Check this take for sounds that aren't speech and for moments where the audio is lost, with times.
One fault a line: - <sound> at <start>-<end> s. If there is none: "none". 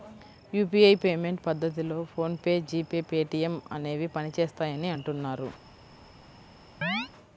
- chirp at 6.8-7.1 s